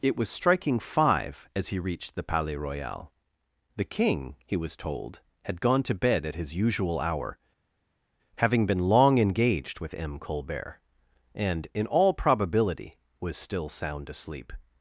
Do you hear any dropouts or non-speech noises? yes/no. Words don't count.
no